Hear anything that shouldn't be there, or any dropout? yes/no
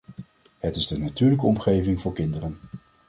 no